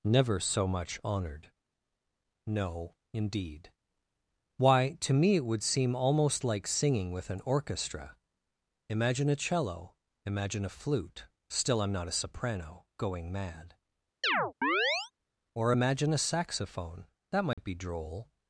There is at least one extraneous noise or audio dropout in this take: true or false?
true